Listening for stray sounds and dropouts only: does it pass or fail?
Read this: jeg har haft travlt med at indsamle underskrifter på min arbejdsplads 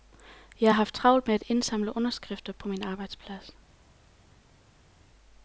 pass